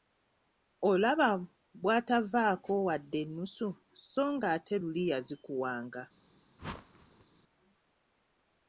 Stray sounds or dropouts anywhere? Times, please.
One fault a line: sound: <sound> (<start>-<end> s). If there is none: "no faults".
sound: whoosh (6.6-7.3 s)